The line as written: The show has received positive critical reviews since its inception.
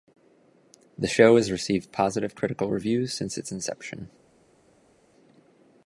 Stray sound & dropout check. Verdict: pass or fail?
pass